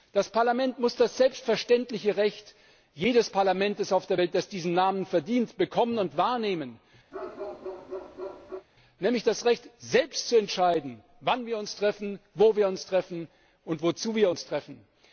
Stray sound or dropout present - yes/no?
yes